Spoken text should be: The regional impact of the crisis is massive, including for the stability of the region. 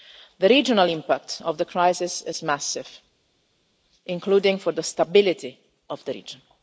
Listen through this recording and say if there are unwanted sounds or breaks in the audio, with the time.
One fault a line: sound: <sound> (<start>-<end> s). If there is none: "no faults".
no faults